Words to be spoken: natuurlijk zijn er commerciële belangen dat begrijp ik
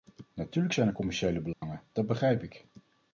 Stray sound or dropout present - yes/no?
yes